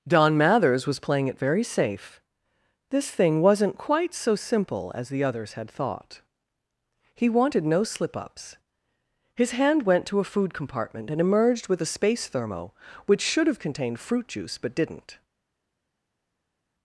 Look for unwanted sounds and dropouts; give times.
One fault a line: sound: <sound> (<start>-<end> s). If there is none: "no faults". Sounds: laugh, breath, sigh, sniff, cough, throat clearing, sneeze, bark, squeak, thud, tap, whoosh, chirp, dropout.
no faults